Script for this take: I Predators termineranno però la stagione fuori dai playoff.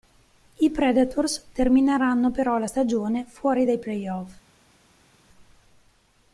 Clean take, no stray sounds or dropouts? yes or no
yes